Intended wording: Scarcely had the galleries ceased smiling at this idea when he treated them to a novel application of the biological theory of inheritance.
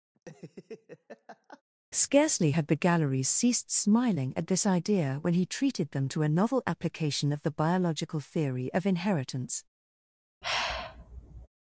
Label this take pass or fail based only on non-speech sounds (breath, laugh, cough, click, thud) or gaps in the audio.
fail